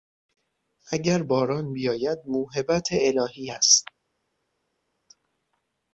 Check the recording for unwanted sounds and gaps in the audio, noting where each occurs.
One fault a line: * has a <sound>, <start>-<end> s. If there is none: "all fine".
all fine